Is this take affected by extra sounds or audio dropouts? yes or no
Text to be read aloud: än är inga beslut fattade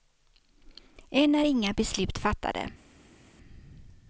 no